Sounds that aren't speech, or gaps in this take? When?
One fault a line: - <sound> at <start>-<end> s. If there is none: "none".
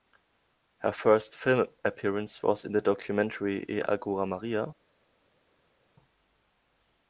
none